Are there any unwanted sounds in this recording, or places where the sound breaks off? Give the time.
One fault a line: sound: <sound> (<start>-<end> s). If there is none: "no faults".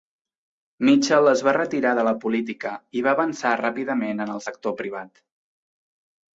no faults